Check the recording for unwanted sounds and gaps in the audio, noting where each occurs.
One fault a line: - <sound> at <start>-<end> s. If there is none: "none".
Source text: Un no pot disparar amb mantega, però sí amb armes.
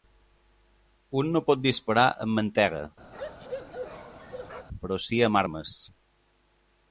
- bark at 3.1-4.7 s